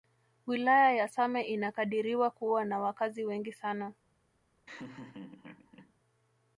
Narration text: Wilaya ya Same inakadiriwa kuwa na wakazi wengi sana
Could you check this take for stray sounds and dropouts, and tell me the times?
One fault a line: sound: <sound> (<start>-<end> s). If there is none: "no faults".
sound: laugh (4.7-5.9 s)